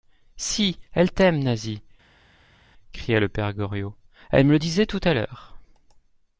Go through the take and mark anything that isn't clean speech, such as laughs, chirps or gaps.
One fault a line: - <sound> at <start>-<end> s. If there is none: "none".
none